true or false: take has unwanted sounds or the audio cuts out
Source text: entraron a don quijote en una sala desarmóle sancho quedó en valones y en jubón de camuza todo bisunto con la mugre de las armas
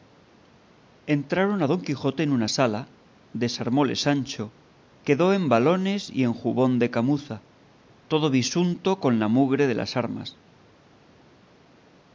false